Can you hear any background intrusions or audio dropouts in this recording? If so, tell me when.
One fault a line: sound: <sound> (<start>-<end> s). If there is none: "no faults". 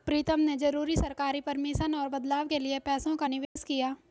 sound: dropout (3.4-3.6 s)